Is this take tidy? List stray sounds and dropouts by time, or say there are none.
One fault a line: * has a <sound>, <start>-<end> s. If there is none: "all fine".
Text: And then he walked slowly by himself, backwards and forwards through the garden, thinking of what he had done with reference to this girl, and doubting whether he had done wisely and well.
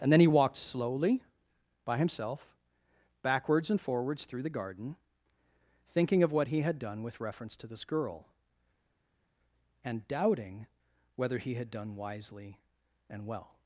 all fine